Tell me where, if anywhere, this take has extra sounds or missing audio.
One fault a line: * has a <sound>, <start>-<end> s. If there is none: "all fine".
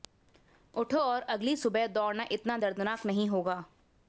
all fine